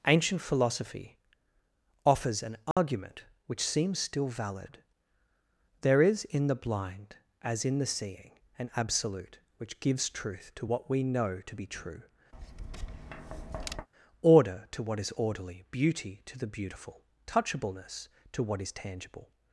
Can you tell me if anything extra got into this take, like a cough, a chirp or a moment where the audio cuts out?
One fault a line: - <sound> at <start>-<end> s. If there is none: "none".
- dropout at 2.7-2.8 s
- tap at 12.3-13.9 s